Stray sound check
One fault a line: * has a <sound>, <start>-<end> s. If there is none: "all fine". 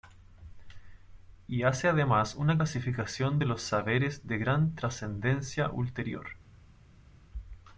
all fine